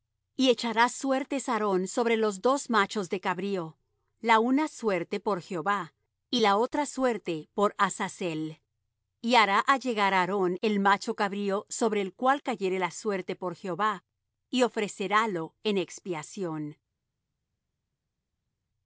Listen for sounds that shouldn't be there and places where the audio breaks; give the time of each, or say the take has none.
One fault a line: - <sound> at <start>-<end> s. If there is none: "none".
none